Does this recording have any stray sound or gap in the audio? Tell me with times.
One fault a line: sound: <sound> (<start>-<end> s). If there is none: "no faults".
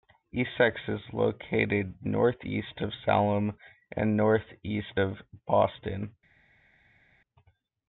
no faults